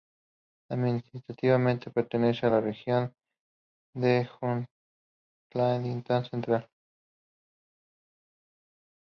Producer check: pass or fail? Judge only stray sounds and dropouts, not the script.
pass